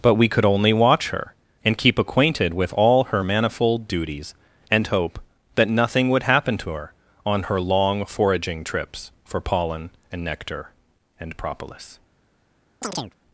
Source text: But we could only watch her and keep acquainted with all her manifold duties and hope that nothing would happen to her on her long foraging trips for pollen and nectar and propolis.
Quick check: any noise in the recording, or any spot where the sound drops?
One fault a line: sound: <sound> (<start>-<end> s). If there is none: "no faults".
sound: chirp (12.8-13.1 s)